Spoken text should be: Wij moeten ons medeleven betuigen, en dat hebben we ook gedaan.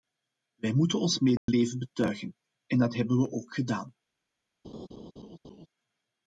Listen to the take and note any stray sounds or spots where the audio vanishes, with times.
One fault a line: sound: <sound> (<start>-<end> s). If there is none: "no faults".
sound: dropout (1.4-1.5 s)
sound: laugh (4.6-5.7 s)